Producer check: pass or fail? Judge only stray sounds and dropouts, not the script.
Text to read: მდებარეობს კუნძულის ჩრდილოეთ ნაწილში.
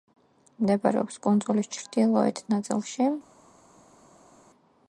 pass